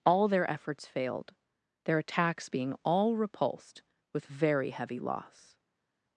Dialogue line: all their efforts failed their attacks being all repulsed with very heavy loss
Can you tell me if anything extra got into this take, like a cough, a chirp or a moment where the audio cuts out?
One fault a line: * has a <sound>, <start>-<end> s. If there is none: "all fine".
all fine